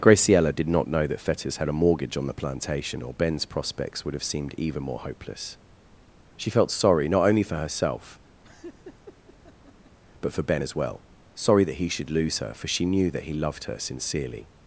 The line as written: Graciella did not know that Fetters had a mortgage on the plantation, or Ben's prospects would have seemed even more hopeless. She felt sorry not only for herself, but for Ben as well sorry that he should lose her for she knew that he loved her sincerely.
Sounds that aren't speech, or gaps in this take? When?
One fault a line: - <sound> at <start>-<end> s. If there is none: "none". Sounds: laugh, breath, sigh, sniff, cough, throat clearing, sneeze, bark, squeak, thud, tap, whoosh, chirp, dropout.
- laugh at 8.4-10.0 s